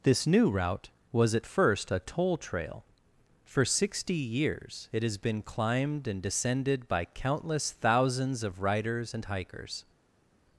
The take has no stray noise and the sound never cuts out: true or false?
true